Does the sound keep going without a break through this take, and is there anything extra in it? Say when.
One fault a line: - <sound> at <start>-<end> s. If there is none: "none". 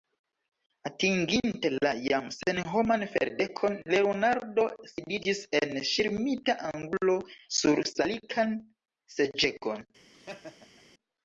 - laugh at 10.1-10.8 s